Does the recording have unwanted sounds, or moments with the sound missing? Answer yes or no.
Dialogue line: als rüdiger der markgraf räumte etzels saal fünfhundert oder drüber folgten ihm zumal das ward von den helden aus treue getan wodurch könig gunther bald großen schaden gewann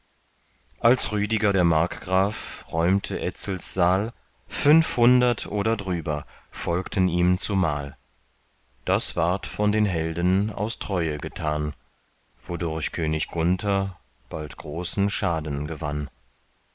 no